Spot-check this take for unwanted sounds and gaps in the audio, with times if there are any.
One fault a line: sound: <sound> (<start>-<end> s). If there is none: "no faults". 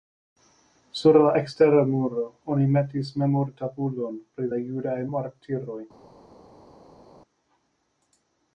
no faults